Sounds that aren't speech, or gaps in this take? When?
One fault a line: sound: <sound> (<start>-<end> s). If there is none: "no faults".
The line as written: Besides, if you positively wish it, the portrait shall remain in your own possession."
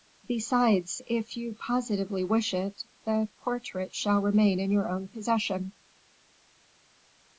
no faults